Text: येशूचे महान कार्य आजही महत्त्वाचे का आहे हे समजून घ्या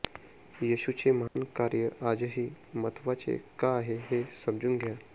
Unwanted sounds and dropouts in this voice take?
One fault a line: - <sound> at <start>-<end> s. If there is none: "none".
- dropout at 1.3-1.4 s